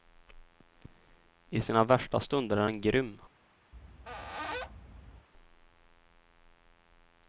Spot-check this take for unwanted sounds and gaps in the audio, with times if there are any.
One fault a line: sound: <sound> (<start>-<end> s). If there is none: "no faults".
sound: squeak (3.7-5.3 s)